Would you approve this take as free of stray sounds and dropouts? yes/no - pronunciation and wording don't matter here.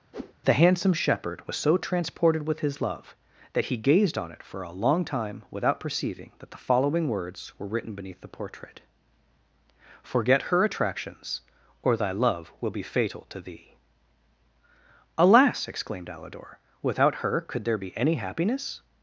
no